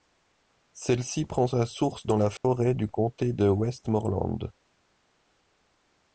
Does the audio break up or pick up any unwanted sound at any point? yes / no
yes